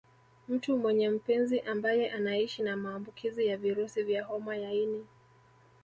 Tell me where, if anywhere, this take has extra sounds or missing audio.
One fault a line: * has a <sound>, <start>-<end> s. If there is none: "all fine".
all fine